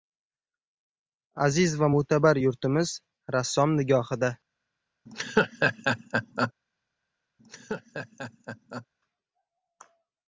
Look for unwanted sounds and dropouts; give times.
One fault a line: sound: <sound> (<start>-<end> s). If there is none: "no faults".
sound: laugh (5.1-6.5 s)
sound: laugh (7.4-8.9 s)